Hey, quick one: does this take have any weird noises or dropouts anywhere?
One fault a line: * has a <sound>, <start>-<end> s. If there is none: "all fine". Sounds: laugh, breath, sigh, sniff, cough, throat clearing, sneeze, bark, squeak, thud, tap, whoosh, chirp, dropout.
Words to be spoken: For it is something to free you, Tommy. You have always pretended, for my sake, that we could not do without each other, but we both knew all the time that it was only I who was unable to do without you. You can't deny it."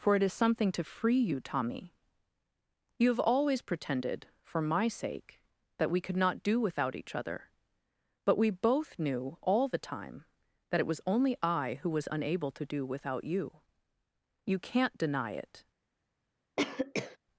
* has a cough, 16.6-17.2 s